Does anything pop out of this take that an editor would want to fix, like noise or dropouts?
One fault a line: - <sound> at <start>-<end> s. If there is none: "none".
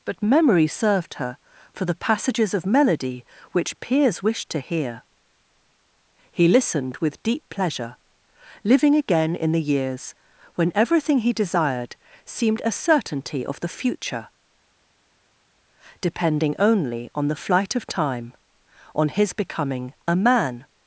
none